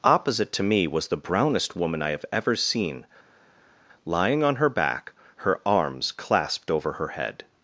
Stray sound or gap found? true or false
false